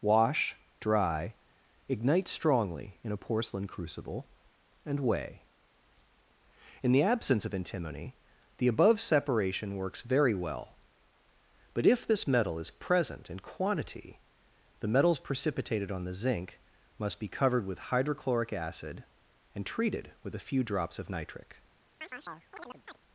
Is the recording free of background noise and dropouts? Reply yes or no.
no